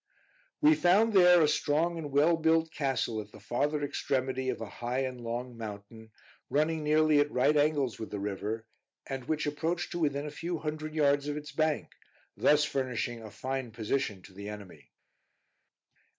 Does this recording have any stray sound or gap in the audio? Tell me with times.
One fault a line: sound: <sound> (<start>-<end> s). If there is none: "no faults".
no faults